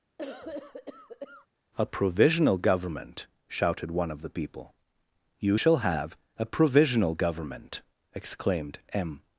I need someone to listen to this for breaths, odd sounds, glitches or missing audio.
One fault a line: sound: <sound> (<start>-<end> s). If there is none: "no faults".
sound: cough (0.2-1.5 s)